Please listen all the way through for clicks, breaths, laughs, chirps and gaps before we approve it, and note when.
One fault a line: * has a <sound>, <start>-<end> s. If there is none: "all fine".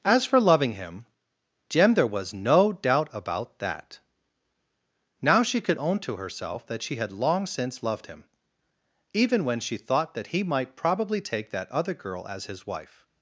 all fine